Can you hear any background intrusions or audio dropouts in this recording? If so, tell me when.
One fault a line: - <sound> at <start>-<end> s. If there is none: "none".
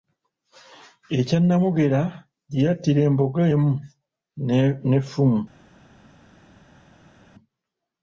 none